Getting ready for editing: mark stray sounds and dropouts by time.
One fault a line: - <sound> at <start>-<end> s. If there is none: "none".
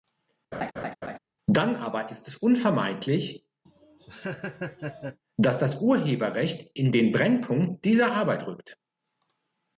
- laugh at 0.5-1.2 s
- laugh at 3.6-5.2 s